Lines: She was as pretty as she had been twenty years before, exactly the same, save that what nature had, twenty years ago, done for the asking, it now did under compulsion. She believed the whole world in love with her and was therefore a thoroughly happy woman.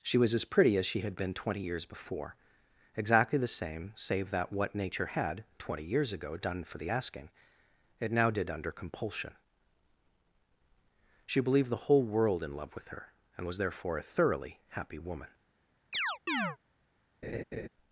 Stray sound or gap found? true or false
true